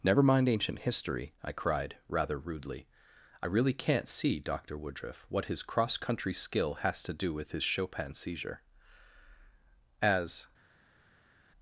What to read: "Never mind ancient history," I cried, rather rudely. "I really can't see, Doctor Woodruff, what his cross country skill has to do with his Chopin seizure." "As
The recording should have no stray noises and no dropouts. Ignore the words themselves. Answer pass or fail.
pass